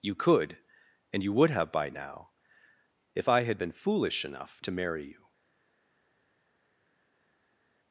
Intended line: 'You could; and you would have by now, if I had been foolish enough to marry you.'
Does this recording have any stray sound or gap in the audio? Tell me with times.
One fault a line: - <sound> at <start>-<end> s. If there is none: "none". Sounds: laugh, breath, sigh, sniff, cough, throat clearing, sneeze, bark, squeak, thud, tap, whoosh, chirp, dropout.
none